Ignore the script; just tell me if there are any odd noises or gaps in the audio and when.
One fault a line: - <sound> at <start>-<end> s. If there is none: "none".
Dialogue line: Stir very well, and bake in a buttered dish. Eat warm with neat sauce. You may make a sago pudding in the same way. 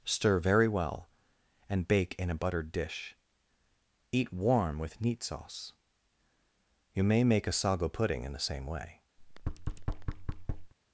- thud at 9.2-10.7 s